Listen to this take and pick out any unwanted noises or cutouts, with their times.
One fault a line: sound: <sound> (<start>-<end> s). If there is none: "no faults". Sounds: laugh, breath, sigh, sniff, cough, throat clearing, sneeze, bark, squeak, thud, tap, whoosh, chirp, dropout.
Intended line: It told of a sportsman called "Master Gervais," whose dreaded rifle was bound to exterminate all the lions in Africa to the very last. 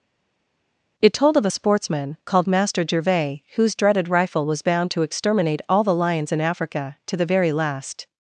no faults